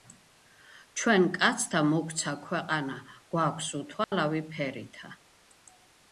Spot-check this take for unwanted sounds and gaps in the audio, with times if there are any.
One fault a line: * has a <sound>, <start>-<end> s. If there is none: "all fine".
* has a dropout, 4.0-4.1 s